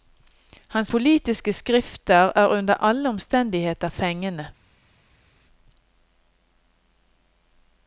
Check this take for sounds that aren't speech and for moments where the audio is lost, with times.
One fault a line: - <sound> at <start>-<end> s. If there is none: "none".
none